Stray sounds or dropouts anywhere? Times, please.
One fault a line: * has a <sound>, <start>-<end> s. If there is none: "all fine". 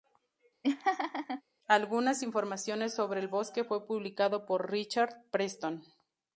* has a laugh, 0.6-1.4 s